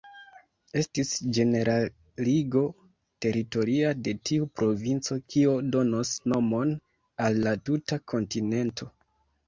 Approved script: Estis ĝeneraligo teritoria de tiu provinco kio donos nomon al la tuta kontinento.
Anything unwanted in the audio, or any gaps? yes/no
no